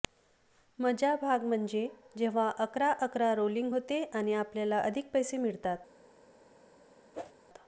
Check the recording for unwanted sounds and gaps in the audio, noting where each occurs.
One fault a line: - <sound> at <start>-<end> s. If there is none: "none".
- whoosh at 7.1-7.3 s